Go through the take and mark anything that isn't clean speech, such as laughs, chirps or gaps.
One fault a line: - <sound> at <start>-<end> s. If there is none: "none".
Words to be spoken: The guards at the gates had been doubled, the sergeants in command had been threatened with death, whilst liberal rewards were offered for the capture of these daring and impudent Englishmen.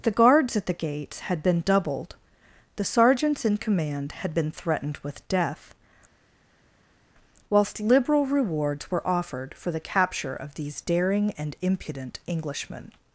none